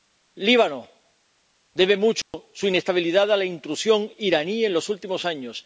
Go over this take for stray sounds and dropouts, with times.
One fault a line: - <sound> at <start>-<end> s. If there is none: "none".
- dropout at 2.2-2.3 s